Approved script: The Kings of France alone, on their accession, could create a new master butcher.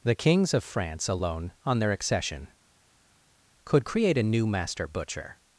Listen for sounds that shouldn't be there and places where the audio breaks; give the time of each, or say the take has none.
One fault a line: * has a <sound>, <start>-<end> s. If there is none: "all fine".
all fine